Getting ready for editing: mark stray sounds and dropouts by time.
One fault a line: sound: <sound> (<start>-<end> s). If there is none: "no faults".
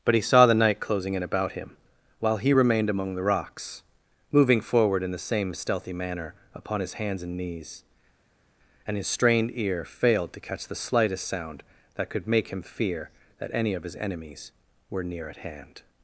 no faults